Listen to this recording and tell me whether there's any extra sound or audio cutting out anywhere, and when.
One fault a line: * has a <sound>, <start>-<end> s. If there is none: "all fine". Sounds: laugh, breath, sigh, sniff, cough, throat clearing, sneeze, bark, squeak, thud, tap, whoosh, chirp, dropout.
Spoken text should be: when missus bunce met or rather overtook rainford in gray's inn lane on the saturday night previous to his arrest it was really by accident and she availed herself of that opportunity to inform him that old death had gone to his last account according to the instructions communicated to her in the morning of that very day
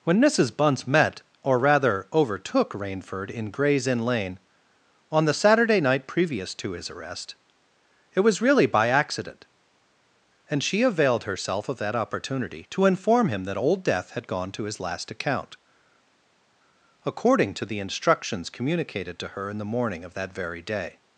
all fine